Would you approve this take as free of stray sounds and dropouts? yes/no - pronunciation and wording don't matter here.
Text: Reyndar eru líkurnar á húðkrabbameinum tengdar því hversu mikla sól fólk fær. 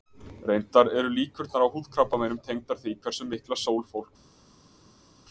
yes